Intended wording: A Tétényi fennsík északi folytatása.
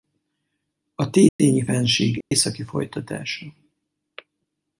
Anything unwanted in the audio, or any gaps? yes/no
yes